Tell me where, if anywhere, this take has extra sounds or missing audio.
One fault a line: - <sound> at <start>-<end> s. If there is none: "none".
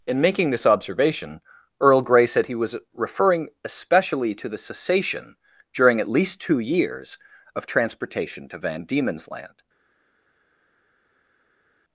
none